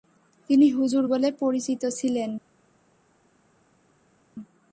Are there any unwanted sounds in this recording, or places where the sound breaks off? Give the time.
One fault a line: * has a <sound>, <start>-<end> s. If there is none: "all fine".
all fine